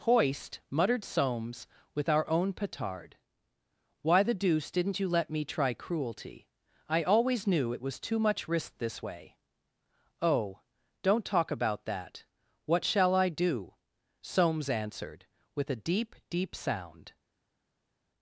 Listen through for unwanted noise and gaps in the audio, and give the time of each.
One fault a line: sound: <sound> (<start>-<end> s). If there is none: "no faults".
no faults